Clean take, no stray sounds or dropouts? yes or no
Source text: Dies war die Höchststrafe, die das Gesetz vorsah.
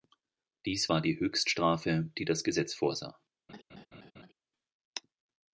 no